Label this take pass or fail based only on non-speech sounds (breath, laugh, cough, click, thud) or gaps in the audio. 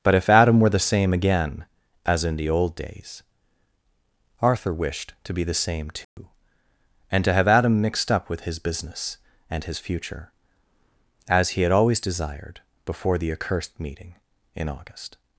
fail